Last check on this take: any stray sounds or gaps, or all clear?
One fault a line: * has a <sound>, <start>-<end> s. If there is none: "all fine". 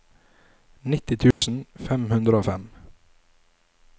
* has a dropout, 1.3-1.4 s